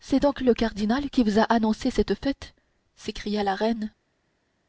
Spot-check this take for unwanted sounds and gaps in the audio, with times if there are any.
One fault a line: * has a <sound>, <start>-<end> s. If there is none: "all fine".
all fine